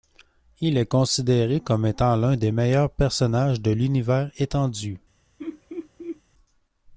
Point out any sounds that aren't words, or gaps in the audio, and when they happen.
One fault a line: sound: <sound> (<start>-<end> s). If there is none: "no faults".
sound: laugh (5.4-6.2 s)